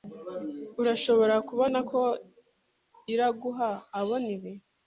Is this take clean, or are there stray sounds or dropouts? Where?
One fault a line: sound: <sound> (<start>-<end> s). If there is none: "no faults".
no faults